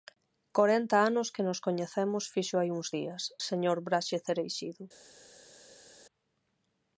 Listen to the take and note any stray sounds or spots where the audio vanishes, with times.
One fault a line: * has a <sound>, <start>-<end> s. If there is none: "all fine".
all fine